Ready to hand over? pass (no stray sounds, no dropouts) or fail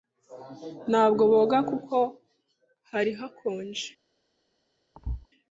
fail